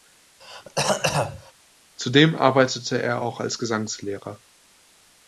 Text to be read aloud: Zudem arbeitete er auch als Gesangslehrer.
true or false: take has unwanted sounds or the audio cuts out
true